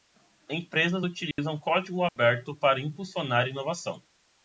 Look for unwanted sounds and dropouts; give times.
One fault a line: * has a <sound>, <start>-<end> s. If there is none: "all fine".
* has a dropout, 1.3-1.4 s
* has a dropout, 2.1-2.2 s